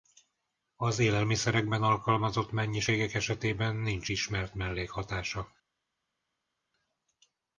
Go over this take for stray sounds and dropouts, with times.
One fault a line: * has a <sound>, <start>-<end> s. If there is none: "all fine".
all fine